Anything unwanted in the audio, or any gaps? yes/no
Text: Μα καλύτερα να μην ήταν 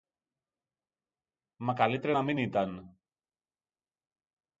no